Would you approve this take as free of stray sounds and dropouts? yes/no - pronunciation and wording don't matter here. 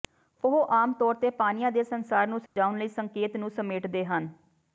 no